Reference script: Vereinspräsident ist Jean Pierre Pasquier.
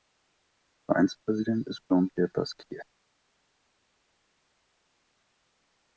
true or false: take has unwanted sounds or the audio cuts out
false